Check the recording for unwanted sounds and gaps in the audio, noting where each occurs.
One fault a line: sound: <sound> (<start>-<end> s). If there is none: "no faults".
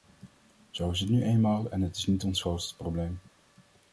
no faults